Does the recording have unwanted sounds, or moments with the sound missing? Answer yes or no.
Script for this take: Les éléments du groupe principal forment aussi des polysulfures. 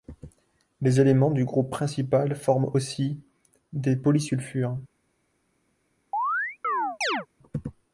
yes